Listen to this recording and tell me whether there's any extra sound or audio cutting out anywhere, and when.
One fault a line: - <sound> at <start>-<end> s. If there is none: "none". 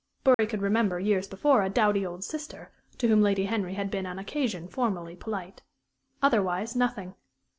- dropout at 0.3-0.4 s